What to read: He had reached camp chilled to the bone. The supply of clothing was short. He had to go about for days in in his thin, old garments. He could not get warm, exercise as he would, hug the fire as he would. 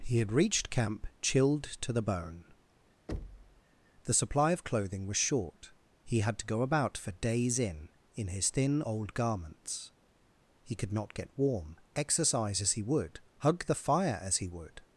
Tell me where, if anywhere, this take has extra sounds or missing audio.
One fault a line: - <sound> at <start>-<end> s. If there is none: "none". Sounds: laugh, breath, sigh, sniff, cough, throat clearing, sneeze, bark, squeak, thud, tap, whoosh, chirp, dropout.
- thud at 3.1-3.6 s